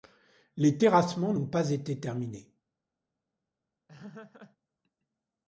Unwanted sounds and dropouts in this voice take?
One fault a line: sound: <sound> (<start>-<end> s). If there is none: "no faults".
sound: laugh (3.9-4.6 s)